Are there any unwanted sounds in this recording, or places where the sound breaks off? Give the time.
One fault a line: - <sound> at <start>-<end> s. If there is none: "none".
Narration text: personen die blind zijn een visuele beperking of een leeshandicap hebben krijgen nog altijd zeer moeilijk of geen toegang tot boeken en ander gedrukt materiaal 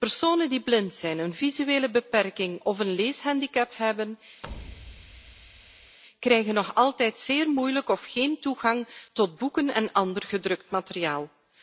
- thud at 4.4-6.0 s